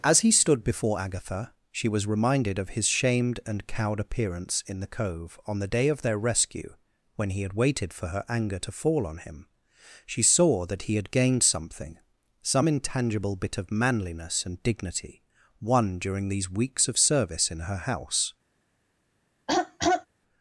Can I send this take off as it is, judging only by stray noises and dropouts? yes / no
no